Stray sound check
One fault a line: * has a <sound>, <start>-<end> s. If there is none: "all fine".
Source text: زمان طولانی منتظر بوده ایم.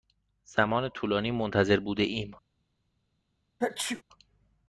* has a sneeze, 3.6-4.0 s